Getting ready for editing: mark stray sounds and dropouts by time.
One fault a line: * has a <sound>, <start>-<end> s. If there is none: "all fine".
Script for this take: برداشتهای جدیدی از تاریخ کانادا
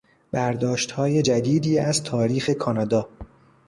all fine